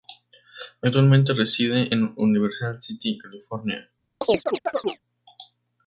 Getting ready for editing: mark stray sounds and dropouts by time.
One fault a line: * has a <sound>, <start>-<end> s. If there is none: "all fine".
* has a chirp, 4.2-5.0 s